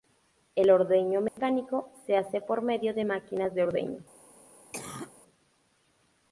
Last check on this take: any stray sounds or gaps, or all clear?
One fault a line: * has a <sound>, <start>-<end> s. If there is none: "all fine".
* has a dropout, 1.3-1.4 s
* has a cough, 4.7-5.1 s